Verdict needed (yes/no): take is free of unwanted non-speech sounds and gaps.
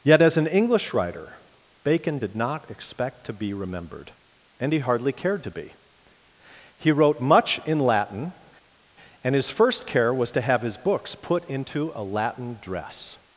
yes